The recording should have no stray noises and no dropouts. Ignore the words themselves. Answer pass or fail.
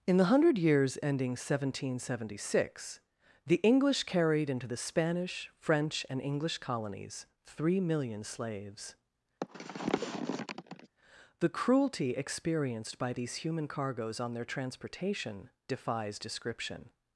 fail